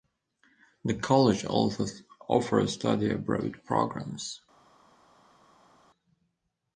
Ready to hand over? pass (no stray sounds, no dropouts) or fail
pass